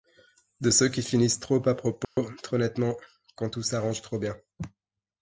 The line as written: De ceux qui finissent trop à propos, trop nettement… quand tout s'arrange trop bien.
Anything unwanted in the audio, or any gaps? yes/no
yes